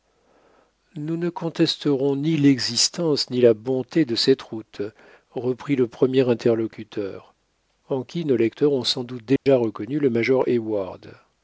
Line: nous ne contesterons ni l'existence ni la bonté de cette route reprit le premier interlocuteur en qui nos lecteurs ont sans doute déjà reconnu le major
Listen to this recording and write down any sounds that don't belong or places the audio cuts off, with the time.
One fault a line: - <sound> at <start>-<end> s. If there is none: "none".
- dropout at 9.4-9.5 s